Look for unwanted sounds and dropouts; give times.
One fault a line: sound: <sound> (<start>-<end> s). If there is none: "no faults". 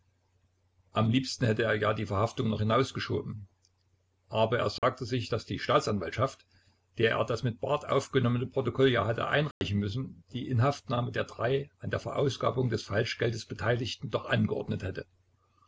sound: dropout (4.8-4.8 s)
sound: dropout (9.5-9.6 s)